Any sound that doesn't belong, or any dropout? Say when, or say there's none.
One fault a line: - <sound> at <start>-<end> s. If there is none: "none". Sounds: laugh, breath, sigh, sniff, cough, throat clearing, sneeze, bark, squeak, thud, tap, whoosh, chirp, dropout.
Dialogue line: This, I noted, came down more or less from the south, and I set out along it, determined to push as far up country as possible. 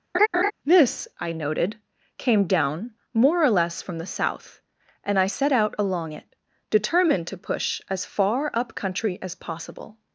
- laugh at 0.1-0.5 s